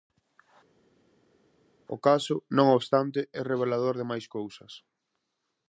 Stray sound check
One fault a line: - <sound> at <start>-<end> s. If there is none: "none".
none